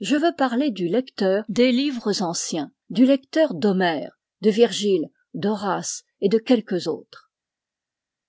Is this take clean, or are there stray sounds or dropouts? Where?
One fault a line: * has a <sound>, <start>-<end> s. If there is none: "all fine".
all fine